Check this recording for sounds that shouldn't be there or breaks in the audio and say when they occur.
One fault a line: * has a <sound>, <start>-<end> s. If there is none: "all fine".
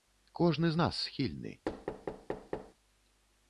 * has a thud, 1.7-2.7 s